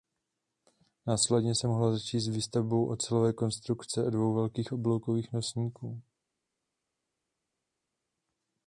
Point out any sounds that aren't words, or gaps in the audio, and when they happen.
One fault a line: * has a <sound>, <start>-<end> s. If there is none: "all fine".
all fine